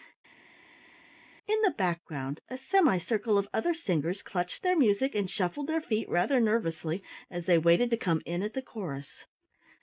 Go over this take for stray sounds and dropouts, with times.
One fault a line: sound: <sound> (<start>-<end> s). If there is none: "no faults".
no faults